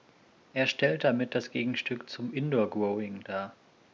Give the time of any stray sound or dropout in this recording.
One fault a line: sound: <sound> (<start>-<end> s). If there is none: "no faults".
no faults